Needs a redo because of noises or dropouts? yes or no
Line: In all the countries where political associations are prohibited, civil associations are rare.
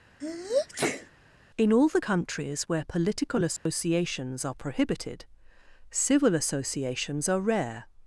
yes